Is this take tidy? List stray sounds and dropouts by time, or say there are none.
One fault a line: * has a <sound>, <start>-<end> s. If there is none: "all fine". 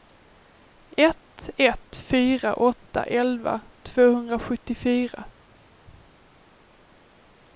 all fine